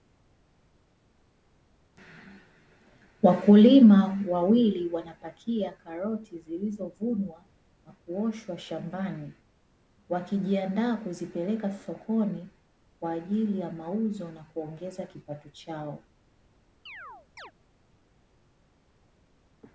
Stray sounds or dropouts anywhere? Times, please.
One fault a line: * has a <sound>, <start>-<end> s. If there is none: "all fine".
* has a chirp, 16.9-17.5 s